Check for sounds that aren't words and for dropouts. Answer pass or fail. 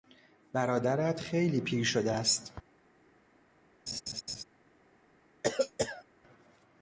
fail